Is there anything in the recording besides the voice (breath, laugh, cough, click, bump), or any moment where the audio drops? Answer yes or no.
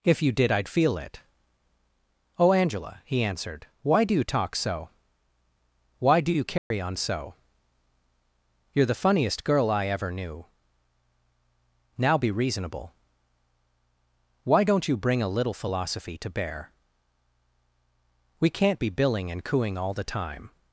yes